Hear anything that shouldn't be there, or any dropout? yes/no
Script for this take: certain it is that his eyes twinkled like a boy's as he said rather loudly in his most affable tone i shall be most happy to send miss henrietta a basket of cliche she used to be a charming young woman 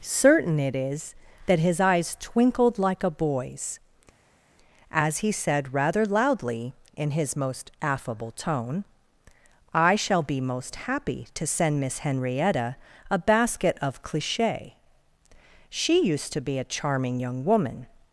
no